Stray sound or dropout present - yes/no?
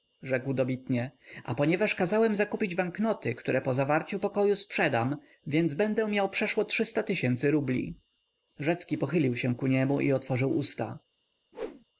yes